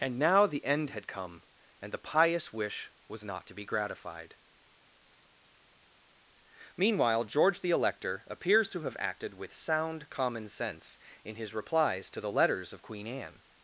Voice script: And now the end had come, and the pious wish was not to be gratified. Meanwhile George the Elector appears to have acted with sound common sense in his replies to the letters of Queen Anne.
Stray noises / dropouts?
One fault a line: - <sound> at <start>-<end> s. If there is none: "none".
none